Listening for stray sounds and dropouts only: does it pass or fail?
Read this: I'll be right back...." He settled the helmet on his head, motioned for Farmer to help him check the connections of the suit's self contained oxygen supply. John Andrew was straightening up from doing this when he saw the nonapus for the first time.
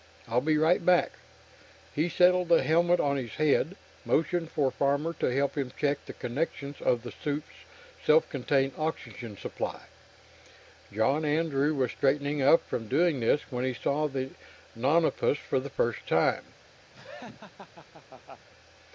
fail